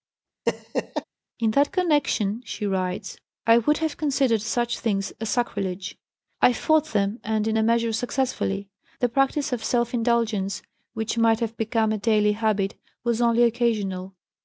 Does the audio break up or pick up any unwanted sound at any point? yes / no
yes